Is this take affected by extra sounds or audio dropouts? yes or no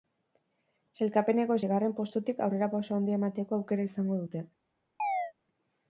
yes